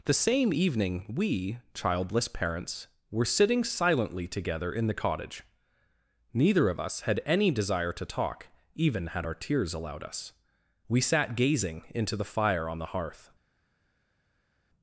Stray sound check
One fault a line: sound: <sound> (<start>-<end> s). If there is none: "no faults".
no faults